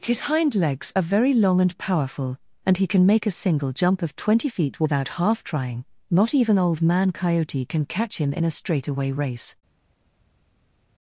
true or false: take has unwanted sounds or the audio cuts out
false